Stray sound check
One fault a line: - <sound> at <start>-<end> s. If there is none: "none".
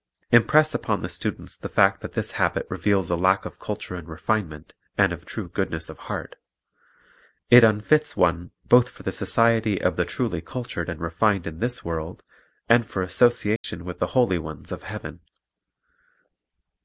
- dropout at 13.6-13.6 s